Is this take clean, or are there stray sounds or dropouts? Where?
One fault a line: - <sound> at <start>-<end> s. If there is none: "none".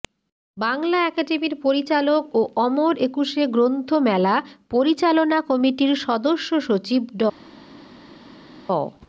none